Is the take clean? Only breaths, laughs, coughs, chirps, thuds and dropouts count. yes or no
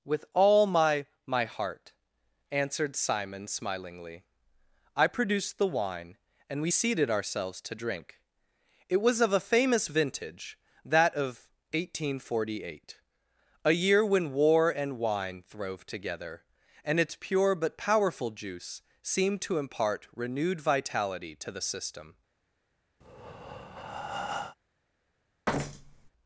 no